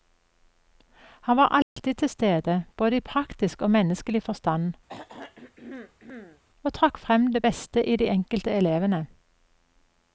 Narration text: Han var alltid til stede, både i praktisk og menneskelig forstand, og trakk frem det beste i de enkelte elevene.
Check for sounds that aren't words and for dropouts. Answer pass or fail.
fail